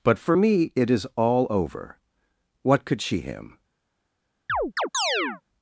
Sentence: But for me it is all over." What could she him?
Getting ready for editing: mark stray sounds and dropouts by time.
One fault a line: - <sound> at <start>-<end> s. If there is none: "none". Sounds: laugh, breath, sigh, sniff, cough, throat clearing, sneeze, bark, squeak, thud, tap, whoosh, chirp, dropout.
- chirp at 4.5-5.4 s